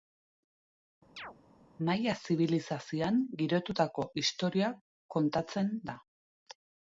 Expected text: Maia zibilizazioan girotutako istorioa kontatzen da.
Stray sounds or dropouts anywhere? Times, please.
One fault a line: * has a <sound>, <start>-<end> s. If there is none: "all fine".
* has a chirp, 1.2-1.4 s